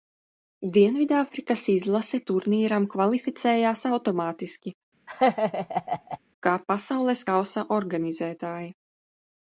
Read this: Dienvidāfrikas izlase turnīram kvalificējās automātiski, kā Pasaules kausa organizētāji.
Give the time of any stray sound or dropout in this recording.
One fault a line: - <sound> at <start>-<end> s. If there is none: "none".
- laugh at 5.1-6.2 s